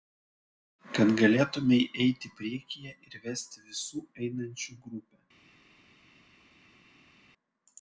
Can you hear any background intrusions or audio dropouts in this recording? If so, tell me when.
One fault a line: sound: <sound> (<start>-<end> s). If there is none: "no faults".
no faults